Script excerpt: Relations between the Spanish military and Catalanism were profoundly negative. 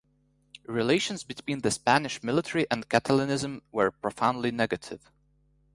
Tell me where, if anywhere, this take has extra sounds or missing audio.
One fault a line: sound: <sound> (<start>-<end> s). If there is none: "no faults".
no faults